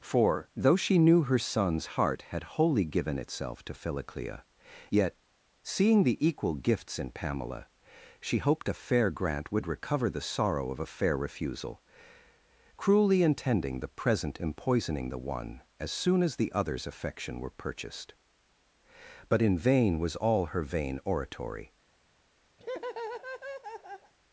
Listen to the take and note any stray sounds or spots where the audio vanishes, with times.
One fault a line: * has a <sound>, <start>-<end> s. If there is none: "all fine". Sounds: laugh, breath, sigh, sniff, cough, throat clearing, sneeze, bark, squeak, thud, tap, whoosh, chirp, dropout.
* has a laugh, 22.6-24.1 s